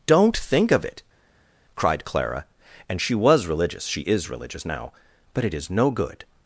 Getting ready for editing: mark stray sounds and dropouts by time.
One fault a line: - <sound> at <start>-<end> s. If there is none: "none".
none